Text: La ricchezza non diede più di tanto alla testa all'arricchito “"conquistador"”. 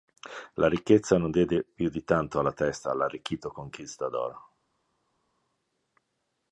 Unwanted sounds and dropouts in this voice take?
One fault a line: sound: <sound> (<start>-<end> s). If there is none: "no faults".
no faults